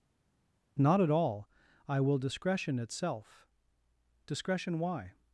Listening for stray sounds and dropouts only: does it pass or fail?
pass